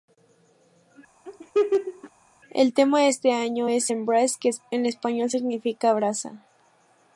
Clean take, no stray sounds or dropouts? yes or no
no